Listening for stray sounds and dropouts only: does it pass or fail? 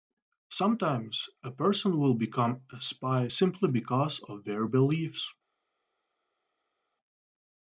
pass